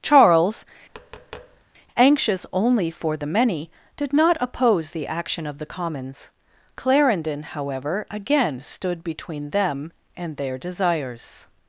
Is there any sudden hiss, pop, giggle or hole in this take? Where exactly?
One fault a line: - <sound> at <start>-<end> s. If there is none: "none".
- tap at 0.9-1.6 s